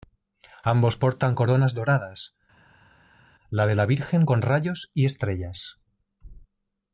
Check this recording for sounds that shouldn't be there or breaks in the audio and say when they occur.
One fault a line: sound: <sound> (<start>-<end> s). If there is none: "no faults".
no faults